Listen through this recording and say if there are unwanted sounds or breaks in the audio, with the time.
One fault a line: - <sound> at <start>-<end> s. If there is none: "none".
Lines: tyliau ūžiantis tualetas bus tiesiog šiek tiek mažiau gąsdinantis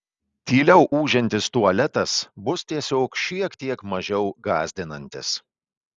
none